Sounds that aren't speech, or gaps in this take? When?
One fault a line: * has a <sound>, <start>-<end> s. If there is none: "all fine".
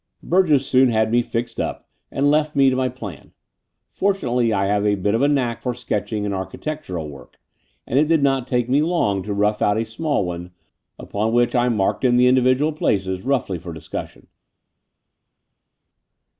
all fine